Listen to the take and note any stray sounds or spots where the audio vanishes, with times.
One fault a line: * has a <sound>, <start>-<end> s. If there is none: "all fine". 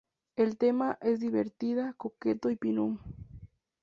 all fine